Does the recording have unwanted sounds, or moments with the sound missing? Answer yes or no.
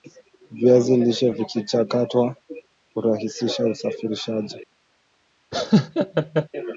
yes